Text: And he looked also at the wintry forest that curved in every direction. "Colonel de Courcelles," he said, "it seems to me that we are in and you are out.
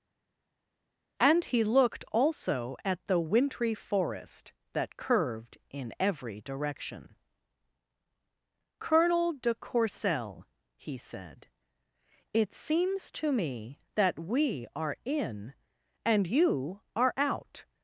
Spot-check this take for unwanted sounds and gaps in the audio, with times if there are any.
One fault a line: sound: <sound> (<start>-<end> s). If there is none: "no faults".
no faults